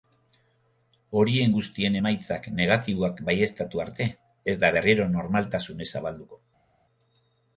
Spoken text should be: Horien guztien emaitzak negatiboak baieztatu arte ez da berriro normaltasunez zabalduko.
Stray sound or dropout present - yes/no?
no